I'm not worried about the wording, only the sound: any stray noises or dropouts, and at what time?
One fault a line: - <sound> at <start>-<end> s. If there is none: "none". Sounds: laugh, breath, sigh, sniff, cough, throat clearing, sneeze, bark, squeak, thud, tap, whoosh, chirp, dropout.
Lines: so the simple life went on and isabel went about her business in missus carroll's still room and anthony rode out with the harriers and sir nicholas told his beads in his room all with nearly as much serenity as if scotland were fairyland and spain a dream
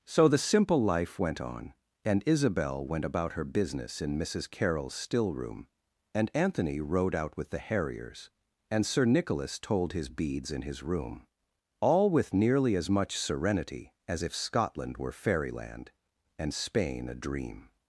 none